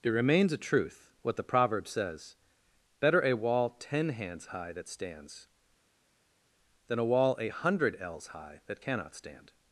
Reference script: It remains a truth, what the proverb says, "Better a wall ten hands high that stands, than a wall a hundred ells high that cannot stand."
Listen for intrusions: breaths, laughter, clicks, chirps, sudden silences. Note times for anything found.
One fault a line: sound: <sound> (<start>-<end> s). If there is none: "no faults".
no faults